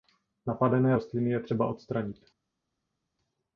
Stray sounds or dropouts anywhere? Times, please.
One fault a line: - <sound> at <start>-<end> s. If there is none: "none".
none